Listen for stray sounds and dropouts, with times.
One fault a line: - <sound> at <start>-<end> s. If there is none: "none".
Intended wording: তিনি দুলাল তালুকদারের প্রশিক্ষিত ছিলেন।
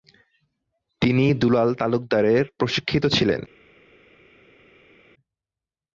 none